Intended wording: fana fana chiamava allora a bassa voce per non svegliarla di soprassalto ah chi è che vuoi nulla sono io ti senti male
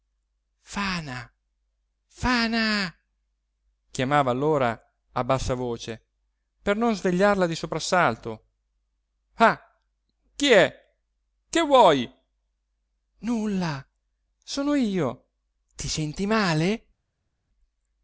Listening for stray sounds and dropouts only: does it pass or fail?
pass